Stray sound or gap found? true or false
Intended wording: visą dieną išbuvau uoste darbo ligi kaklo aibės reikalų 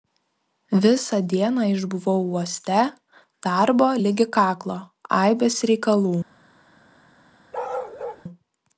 true